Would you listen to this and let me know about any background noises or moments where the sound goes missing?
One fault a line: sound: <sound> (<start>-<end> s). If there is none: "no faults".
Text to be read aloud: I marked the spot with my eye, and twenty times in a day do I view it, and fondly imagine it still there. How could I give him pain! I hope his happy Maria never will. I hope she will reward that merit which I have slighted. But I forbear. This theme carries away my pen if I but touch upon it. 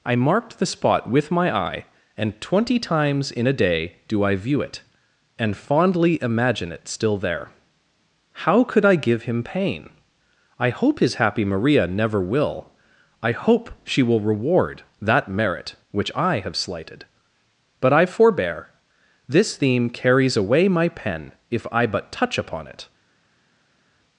no faults